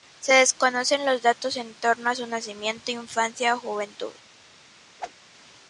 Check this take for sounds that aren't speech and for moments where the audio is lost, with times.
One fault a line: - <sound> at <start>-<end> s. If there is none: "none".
- whoosh at 5.0-5.1 s